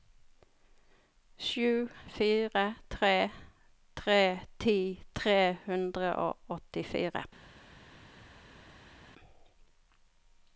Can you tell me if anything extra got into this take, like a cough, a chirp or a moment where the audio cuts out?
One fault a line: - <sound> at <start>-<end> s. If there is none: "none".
none